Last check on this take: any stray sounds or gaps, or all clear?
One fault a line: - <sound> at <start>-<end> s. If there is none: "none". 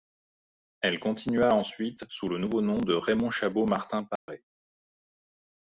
- dropout at 4.2-4.3 s